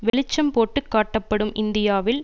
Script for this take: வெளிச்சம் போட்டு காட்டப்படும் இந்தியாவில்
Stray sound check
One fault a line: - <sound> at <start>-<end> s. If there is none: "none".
- dropout at 0.1-0.1 s